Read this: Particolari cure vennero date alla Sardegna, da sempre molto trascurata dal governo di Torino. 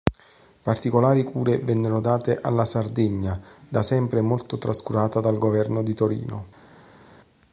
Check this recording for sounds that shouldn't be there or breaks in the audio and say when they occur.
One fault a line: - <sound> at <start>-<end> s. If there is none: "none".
none